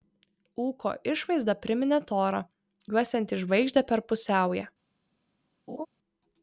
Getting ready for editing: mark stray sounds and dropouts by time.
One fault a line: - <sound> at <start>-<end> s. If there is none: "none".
- laugh at 5.7-5.9 s